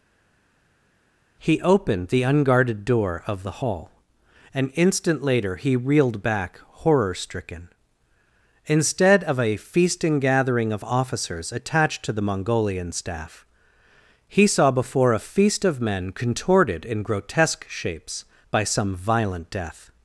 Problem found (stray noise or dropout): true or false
false